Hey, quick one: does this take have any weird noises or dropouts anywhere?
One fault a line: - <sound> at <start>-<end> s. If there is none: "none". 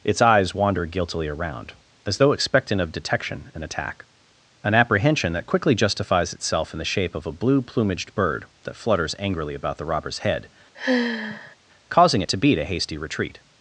- sigh at 10.7-11.6 s